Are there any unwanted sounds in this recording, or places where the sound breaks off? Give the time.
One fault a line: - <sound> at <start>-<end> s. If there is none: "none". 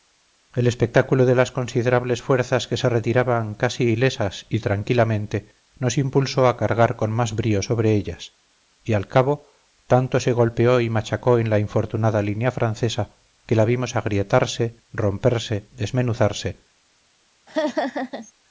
- laugh at 17.5-18.3 s